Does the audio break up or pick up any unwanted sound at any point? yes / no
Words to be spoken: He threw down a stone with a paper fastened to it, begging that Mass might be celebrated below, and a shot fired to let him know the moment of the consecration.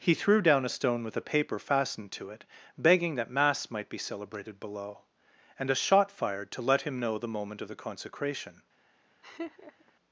yes